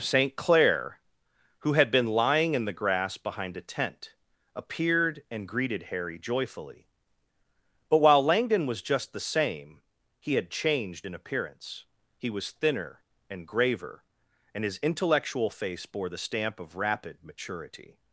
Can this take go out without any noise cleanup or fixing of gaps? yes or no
yes